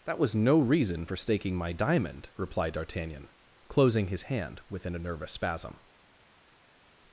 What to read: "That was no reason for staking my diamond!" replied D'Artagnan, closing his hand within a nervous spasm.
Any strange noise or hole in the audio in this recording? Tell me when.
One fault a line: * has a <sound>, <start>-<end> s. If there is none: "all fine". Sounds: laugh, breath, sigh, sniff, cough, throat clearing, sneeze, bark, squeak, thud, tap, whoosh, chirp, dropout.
all fine